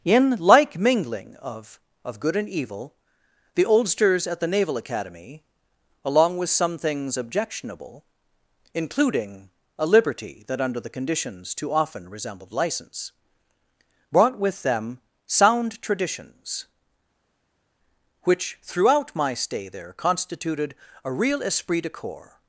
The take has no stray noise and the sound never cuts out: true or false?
true